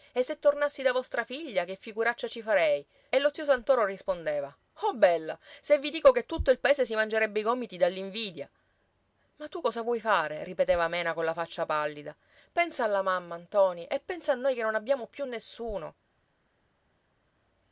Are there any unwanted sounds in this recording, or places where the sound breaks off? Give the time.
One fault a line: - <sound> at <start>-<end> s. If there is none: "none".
none